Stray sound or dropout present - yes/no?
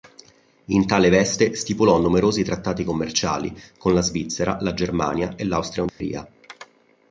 yes